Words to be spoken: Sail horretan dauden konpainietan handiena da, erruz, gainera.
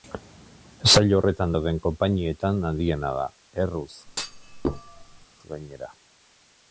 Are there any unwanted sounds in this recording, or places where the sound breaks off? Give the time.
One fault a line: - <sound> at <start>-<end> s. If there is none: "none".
- thud at 4.1-5.3 s